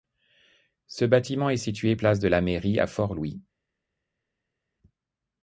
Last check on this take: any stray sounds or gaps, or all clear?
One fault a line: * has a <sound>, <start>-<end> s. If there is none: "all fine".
all fine